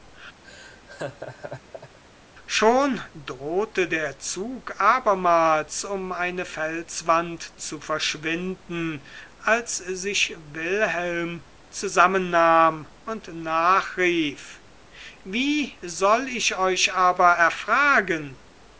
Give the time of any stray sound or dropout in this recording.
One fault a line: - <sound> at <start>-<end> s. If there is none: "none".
- laugh at 0.4-2.0 s